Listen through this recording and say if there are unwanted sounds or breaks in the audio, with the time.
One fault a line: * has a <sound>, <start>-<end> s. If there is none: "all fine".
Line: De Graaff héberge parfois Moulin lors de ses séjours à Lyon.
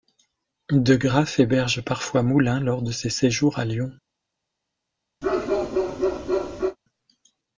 * has a bark, 5.2-6.8 s